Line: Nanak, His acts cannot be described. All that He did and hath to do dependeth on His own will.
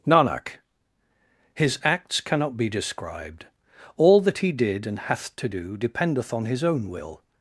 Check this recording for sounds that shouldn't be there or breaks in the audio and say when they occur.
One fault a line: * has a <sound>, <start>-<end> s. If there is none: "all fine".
all fine